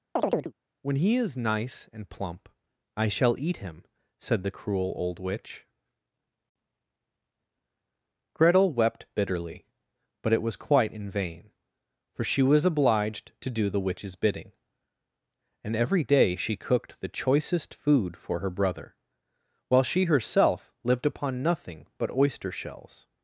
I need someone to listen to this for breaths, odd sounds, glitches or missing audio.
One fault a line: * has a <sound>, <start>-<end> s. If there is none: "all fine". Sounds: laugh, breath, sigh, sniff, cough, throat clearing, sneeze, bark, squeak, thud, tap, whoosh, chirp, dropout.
* has a chirp, 0.2-0.5 s